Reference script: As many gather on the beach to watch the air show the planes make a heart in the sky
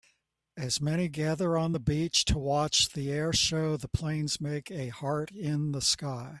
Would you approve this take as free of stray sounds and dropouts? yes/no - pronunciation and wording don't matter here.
yes